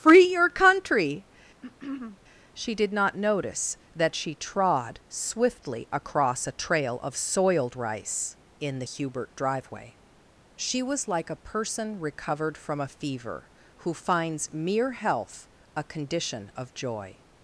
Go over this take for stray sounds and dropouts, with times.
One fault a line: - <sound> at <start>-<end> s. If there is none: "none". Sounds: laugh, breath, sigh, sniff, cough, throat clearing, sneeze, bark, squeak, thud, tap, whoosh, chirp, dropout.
- throat clearing at 1.6-2.2 s